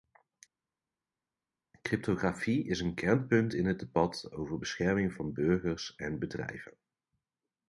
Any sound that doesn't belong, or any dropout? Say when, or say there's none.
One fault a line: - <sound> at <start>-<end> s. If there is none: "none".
none